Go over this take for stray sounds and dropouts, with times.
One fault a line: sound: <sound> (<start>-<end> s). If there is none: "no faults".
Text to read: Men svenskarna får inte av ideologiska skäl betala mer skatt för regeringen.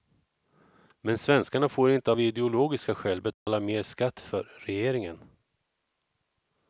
sound: dropout (3.3-3.5 s)